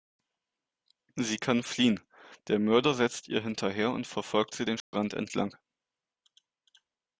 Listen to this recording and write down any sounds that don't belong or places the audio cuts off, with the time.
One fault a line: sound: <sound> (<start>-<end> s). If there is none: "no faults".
sound: dropout (4.8-4.9 s)